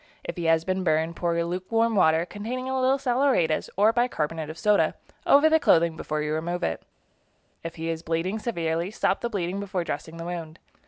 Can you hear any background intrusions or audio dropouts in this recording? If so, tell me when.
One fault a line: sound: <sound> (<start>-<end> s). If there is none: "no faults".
no faults